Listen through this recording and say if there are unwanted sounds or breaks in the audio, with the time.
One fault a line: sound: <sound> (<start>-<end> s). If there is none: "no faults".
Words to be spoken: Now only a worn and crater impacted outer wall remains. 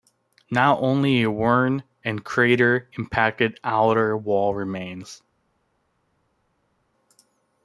no faults